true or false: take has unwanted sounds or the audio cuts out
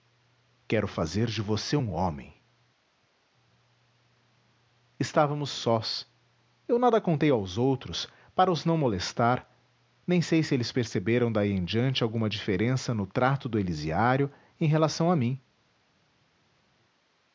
false